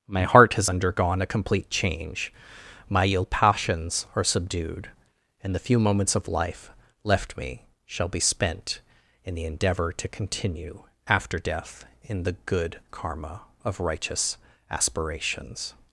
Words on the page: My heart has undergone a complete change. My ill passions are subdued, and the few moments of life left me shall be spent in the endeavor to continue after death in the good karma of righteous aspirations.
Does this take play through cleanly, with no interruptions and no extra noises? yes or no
yes